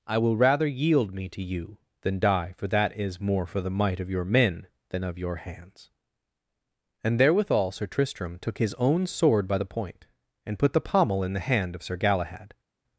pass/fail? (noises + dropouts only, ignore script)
pass